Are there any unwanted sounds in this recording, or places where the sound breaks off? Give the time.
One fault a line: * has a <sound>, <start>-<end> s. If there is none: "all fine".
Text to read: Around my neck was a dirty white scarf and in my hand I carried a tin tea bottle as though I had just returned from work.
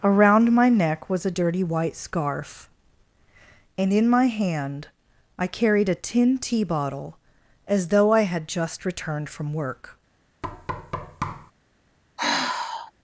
* has a thud, 10.4-11.5 s
* has a sigh, 12.2-12.9 s